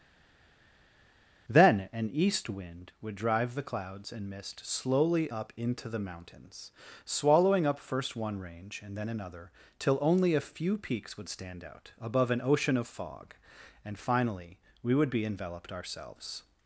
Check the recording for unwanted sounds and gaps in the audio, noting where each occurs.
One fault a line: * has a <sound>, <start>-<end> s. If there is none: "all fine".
all fine